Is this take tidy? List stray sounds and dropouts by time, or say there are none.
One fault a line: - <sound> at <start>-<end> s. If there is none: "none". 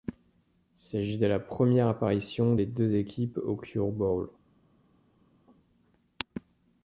none